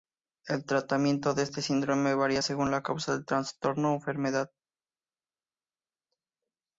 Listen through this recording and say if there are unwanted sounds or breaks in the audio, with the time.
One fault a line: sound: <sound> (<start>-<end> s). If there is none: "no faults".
no faults